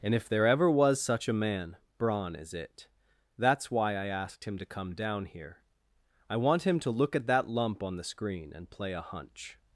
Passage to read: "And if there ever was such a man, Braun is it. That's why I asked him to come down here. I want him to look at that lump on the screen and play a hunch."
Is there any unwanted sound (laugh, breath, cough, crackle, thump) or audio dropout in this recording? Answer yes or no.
no